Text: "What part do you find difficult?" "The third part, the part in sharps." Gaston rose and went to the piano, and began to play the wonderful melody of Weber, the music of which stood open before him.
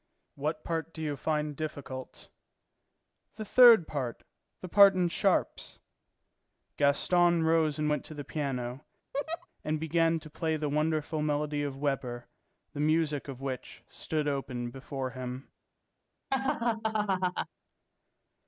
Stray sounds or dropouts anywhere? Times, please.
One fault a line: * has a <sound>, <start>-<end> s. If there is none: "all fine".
* has a laugh, 9.1-9.5 s
* has a laugh, 16.3-17.5 s